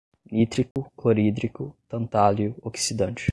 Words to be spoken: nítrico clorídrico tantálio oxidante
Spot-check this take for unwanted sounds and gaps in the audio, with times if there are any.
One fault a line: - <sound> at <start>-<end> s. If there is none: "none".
- dropout at 0.7-0.8 s